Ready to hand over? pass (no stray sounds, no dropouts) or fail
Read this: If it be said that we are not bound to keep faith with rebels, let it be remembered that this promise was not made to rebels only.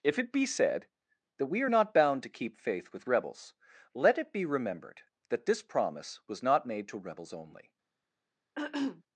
fail